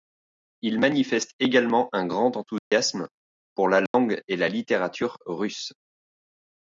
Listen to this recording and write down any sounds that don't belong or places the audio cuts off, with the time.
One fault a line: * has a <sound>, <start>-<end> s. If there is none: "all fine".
* has a dropout, 2.6-2.7 s
* has a dropout, 3.9-3.9 s